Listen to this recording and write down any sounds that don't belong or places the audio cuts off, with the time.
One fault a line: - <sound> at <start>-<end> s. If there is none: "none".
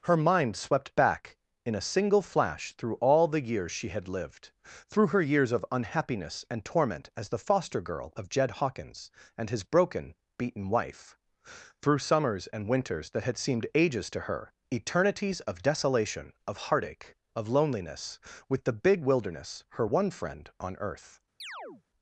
- chirp at 21.4-21.8 s